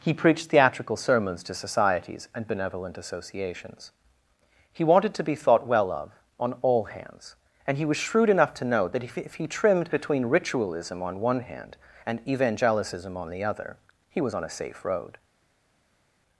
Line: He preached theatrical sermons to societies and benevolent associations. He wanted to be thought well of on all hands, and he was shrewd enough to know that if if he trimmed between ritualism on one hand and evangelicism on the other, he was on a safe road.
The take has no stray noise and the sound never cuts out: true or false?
true